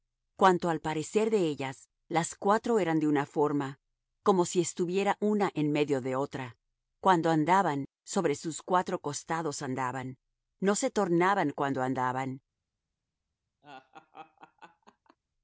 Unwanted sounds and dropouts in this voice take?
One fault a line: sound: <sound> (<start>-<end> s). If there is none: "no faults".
sound: laugh (13.6-15.2 s)